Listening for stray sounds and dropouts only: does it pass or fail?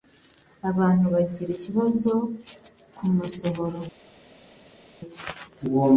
pass